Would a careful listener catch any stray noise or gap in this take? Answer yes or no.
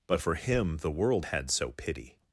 no